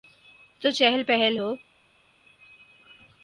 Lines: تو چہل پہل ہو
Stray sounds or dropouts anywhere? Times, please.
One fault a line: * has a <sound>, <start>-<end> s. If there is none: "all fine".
all fine